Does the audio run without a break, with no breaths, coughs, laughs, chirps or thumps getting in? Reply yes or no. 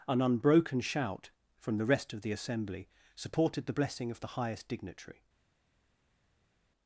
yes